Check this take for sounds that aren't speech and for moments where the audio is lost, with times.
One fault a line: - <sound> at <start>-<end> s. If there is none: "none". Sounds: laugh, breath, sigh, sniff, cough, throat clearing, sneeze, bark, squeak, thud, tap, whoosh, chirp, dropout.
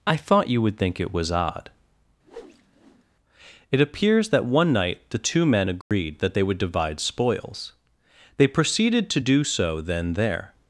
- whoosh at 2.2-3.0 s
- dropout at 5.8-5.9 s